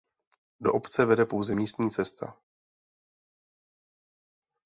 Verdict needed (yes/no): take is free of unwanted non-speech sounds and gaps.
yes